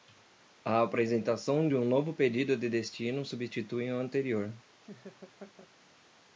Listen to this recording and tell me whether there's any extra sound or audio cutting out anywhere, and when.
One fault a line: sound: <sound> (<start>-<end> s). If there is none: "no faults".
sound: laugh (4.8-5.7 s)